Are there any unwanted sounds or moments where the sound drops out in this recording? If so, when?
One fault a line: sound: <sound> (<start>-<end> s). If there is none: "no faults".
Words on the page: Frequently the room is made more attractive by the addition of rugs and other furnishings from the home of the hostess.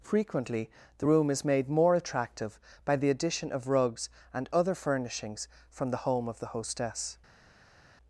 no faults